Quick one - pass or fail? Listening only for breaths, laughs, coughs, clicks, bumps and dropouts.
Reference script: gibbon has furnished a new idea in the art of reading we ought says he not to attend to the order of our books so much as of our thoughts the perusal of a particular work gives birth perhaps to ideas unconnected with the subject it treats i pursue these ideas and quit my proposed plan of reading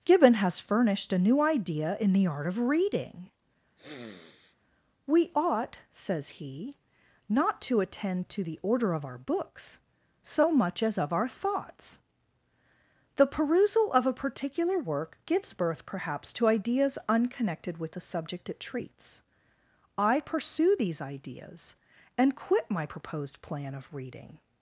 fail